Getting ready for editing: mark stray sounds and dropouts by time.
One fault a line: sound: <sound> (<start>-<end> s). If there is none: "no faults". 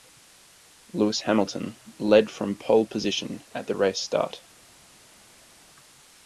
no faults